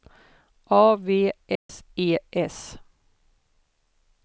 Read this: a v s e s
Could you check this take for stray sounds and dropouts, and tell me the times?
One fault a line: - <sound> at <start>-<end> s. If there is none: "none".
- dropout at 1.6-1.7 s